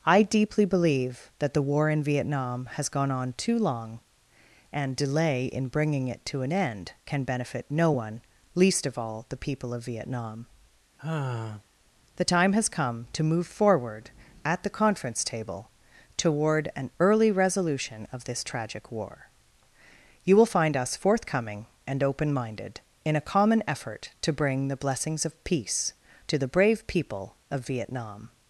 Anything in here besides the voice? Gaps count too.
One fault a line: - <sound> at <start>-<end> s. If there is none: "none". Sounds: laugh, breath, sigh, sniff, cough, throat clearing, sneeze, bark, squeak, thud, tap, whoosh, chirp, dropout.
- sigh at 11.0-11.6 s